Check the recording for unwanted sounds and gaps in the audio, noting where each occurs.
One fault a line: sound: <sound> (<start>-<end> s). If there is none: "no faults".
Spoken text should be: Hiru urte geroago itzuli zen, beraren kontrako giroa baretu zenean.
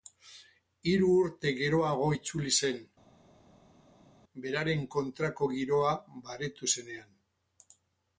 no faults